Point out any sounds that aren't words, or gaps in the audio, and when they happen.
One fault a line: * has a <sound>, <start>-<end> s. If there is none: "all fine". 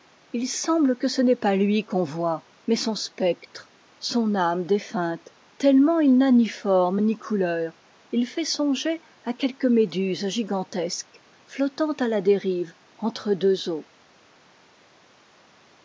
all fine